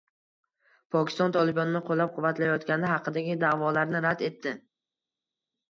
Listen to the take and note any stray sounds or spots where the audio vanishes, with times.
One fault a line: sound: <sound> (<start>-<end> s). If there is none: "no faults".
no faults